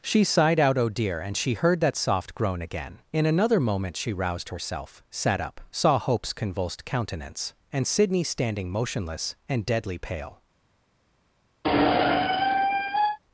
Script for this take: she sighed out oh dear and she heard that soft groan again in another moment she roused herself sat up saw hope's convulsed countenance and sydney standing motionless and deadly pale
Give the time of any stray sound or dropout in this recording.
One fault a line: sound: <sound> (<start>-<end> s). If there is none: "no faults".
sound: squeak (11.6-13.2 s)